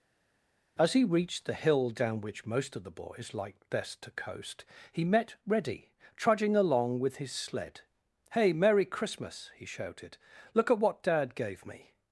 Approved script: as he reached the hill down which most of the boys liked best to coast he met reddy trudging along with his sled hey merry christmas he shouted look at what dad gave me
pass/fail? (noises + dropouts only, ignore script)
pass